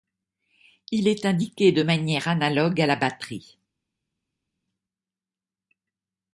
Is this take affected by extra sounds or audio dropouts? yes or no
no